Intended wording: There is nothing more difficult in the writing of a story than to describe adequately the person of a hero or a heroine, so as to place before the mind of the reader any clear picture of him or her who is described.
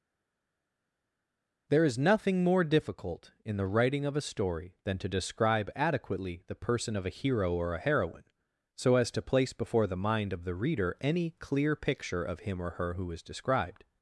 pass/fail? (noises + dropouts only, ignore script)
pass